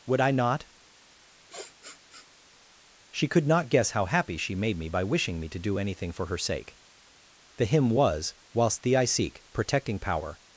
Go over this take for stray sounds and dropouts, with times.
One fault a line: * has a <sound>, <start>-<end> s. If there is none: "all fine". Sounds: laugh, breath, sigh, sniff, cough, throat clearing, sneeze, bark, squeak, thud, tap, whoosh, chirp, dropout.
* has a sniff, 1.5-2.3 s